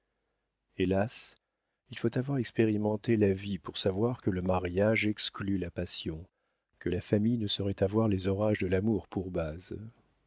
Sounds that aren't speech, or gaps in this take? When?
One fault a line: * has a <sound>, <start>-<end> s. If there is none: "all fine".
all fine